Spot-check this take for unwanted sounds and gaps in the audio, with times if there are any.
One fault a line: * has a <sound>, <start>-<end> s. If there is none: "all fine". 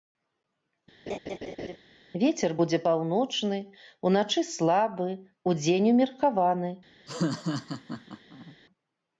* has a laugh, 1.1-1.8 s
* has a laugh, 7.1-8.6 s